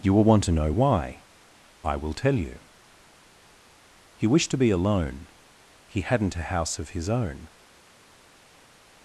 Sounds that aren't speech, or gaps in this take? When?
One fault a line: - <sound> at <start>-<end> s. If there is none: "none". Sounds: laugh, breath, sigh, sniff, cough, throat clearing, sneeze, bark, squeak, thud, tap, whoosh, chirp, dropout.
none